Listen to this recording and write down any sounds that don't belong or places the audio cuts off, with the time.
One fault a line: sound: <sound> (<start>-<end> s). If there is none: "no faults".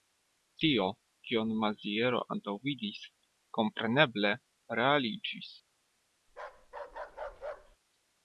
sound: bark (6.3-7.8 s)